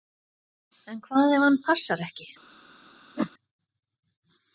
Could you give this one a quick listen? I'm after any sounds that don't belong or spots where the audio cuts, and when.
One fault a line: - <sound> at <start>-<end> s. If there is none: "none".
- whoosh at 3.2-3.3 s